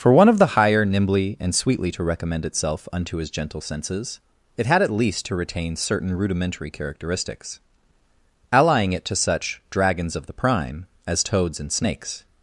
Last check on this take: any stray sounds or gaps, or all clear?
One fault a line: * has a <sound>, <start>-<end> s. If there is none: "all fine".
all fine